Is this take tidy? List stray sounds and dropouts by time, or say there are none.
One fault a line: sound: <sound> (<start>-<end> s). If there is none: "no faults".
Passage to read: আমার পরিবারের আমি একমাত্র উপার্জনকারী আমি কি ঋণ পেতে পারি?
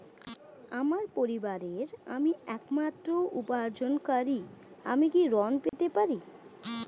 sound: dropout (5.7-5.7 s)